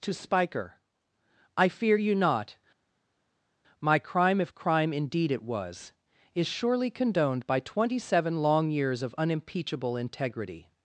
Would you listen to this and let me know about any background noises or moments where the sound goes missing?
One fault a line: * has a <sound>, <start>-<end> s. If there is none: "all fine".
all fine